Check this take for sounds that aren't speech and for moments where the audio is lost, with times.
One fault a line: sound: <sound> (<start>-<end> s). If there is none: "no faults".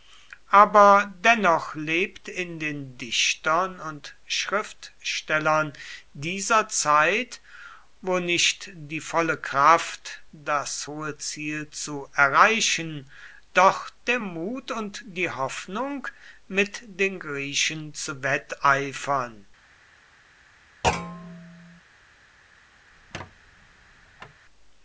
sound: thud (20.8-21.8 s)
sound: squeak (22.9-24.4 s)